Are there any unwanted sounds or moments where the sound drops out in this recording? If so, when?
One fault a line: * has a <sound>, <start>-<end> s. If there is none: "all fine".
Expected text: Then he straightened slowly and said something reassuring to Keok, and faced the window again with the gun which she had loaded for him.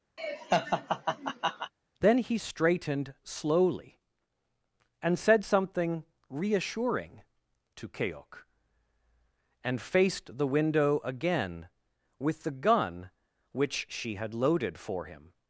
* has a laugh, 0.2-1.7 s